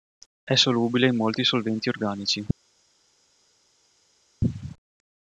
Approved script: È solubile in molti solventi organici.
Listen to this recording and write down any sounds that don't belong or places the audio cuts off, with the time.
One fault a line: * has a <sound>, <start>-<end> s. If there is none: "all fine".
all fine